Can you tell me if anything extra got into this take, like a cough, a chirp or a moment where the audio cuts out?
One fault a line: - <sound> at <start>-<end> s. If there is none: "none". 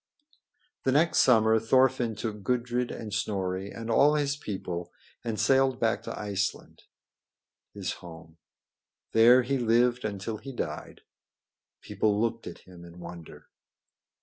none